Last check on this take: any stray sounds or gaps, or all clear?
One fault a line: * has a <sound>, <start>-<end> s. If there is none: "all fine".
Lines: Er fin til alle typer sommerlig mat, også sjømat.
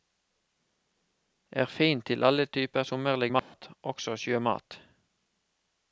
* has a dropout, 3.4-3.5 s